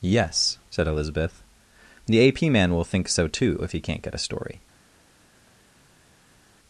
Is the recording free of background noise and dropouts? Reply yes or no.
yes